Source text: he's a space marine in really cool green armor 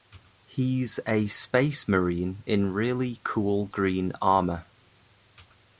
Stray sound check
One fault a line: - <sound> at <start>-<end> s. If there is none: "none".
none